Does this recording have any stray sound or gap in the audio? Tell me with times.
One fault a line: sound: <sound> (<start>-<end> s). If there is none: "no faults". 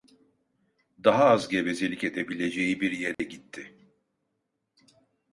sound: dropout (3.1-3.2 s)